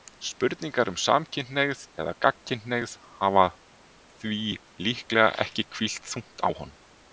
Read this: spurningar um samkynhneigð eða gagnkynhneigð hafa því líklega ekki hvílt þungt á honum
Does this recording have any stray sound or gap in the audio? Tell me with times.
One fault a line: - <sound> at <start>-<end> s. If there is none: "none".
none